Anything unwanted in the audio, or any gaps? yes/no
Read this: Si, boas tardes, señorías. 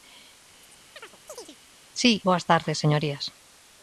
yes